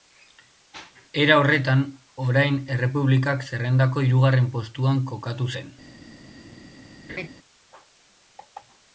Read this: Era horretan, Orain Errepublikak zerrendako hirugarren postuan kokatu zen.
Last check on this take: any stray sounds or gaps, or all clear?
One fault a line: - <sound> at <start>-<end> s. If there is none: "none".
- laugh at 7.1-7.3 s